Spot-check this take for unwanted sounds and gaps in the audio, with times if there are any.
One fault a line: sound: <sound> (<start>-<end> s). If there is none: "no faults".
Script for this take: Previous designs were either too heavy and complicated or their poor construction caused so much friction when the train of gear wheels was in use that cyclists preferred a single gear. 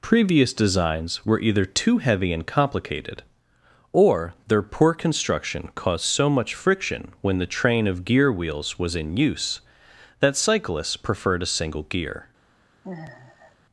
sound: sigh (12.8-13.6 s)